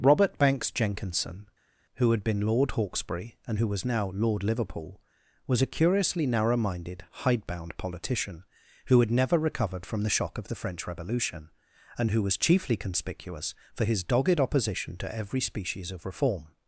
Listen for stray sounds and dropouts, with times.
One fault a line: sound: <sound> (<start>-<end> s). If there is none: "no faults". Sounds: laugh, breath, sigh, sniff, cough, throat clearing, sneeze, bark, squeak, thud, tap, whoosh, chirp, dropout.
no faults